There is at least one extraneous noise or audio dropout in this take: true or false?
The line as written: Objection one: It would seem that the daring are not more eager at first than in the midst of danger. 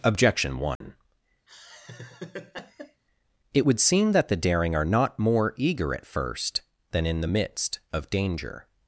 true